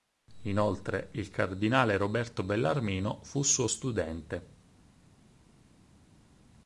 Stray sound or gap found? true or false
false